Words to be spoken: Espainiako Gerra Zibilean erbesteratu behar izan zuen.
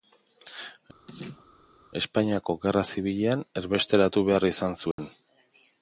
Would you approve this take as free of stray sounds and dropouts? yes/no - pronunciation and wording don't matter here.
no